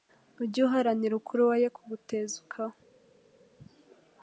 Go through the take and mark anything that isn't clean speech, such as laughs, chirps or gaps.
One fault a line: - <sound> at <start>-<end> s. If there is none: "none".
none